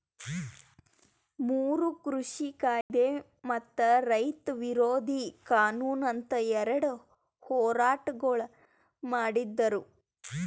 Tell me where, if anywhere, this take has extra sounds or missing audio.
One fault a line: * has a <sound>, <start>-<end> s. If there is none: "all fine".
* has a dropout, 2.8-2.9 s